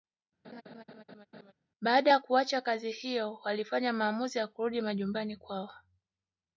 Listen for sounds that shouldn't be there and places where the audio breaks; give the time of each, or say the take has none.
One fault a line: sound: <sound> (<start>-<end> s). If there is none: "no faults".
sound: laugh (0.4-1.5 s)